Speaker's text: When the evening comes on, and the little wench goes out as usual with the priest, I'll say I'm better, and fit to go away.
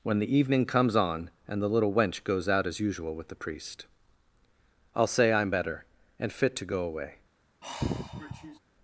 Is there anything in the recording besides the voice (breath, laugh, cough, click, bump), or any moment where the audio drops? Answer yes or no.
yes